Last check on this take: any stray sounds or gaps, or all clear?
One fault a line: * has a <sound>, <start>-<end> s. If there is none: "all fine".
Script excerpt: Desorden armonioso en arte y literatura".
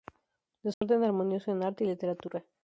* has a dropout, 0.7-0.8 s